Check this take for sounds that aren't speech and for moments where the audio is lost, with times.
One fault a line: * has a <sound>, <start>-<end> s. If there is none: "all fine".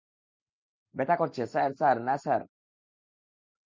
all fine